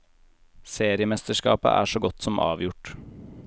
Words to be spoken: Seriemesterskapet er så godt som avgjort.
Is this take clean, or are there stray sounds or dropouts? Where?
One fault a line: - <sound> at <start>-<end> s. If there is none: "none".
none